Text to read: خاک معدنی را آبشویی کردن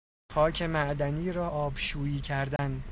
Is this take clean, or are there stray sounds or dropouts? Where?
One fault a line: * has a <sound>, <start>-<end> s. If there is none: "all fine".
* has a dropout, 2.6-2.6 s